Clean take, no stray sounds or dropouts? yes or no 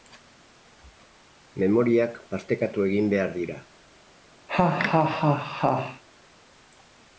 no